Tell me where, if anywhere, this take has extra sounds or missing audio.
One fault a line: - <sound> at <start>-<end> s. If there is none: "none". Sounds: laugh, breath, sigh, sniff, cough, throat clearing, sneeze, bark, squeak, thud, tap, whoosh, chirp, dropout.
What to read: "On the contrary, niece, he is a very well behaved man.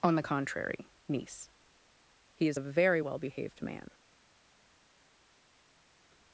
none